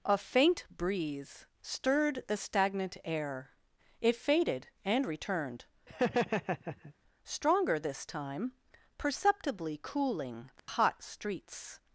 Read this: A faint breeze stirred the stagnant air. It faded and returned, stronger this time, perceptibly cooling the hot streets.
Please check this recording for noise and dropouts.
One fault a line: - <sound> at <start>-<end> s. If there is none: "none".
- laugh at 5.9-6.9 s
- dropout at 10.6-10.7 s